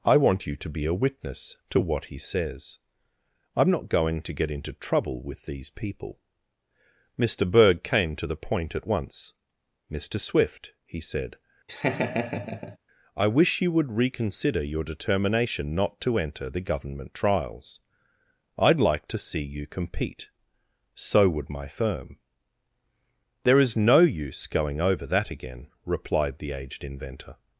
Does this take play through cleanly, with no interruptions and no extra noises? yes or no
no